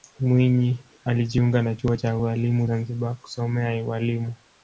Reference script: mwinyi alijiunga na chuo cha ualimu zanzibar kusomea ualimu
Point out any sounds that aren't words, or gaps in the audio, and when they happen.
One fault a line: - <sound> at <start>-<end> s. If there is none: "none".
none